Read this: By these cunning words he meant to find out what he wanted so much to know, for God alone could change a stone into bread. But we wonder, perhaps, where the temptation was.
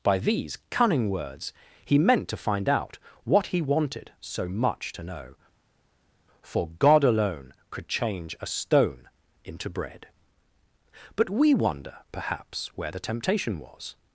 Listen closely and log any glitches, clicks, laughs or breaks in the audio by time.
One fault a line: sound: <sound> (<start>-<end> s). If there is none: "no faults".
no faults